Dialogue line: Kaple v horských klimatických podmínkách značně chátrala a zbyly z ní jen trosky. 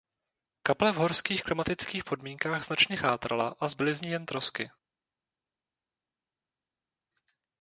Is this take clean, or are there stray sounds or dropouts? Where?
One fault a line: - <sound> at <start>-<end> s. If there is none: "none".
none